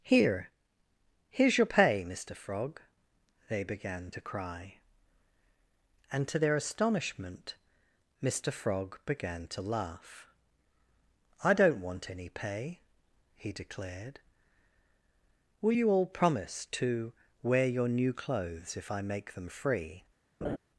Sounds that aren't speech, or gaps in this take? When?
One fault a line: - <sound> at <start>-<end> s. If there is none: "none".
- laugh at 20.4-20.6 s